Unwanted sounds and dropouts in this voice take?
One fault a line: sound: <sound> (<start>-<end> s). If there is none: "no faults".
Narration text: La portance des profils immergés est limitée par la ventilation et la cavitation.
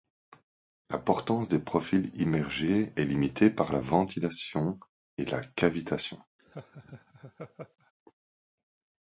sound: laugh (6.4-7.9 s)